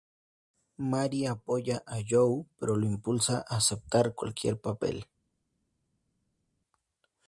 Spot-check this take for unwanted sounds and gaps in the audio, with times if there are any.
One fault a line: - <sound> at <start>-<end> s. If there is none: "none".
none